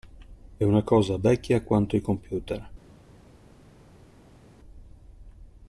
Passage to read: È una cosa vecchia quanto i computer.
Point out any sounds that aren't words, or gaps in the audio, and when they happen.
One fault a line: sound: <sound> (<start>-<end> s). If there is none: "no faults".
no faults